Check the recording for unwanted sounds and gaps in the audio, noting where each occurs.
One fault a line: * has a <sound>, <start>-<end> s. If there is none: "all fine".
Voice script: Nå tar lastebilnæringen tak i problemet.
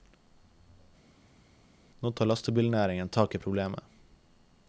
all fine